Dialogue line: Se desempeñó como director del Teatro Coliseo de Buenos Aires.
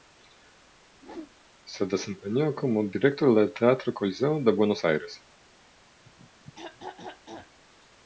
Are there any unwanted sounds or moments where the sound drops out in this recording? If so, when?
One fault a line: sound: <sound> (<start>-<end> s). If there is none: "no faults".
sound: whoosh (0.9-1.3 s)
sound: throat clearing (6.0-7.6 s)